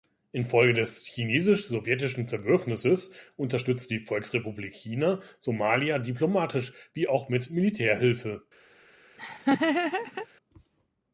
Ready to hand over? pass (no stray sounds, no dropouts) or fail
fail